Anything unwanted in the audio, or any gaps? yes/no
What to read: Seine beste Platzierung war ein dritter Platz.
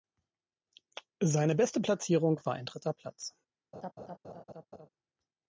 yes